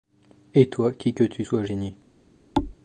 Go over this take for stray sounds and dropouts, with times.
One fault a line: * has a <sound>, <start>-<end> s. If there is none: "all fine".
* has a thud, 2.5-2.7 s